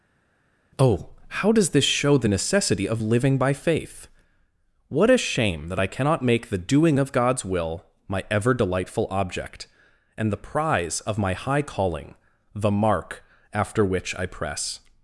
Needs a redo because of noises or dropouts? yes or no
no